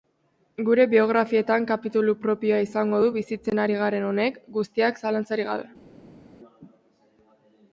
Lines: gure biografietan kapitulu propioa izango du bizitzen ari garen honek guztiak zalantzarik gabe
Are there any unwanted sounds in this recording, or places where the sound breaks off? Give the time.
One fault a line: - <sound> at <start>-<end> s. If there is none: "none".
none